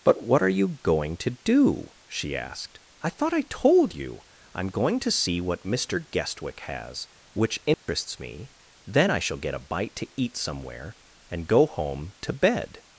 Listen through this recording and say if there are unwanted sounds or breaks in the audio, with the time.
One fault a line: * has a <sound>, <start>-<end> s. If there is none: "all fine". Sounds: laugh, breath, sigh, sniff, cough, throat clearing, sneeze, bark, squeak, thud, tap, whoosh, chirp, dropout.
* has a dropout, 7.7-7.9 s